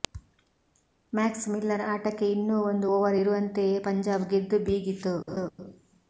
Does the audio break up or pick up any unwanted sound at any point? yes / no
yes